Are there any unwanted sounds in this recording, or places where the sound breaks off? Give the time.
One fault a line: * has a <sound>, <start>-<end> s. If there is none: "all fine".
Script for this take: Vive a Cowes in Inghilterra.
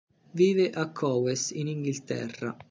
all fine